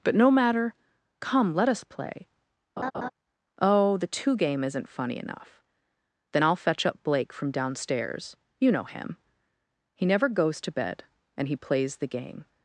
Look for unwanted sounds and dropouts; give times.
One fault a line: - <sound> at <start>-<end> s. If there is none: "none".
- laugh at 2.8-3.1 s